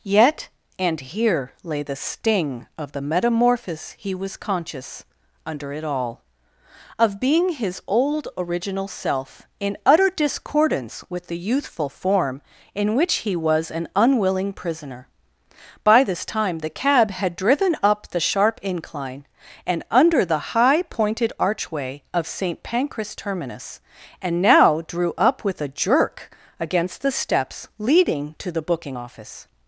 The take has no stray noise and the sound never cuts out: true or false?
true